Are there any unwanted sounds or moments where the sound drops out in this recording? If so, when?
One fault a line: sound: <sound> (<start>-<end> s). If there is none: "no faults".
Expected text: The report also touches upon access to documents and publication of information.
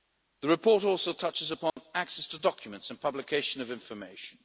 sound: dropout (1.7-1.8 s)